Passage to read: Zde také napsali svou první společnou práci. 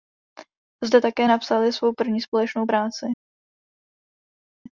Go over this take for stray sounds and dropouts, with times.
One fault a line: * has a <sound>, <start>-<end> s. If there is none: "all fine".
all fine